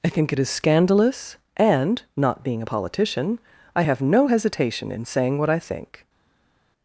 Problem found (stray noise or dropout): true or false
false